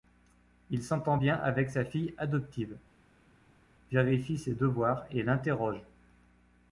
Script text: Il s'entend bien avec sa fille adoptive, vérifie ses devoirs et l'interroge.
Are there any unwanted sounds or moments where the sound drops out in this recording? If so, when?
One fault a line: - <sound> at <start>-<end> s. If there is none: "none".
none